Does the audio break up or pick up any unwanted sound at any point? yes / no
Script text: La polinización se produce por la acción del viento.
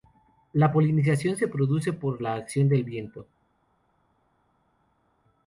no